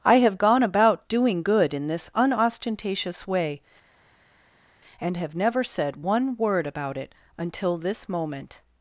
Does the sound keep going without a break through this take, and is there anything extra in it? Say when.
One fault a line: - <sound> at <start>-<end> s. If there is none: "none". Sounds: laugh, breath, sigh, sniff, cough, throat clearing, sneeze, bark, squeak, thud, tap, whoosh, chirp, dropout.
none